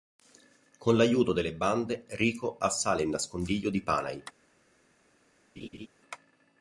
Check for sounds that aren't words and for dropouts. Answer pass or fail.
fail